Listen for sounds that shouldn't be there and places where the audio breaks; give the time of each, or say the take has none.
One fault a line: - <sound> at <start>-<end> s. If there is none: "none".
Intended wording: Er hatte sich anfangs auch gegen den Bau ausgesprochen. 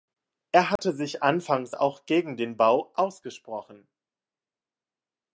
- dropout at 0.8-0.8 s